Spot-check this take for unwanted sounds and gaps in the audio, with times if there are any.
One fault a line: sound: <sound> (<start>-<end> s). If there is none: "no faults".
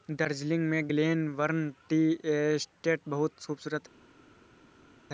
no faults